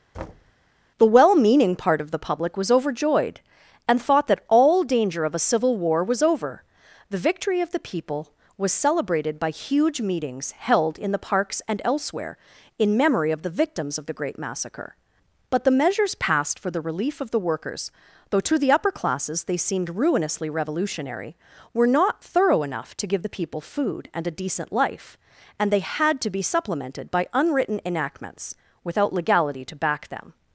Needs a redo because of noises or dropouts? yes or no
yes